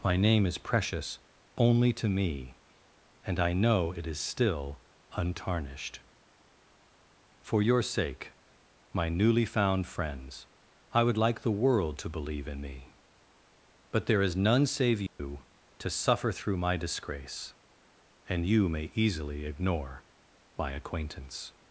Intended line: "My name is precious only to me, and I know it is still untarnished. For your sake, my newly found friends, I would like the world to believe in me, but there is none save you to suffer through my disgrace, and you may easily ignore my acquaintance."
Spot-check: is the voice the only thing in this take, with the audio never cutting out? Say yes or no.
no